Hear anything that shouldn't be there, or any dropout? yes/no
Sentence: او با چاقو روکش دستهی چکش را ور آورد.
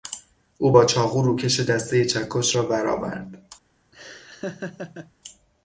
yes